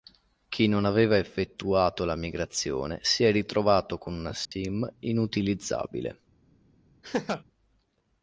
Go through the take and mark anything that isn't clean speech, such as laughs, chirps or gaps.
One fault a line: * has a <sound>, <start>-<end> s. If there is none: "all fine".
* has a dropout, 4.5-4.5 s
* has a laugh, 7.0-7.4 s